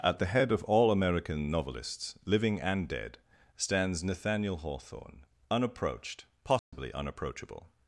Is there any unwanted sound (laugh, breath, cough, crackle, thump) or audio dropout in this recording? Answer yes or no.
yes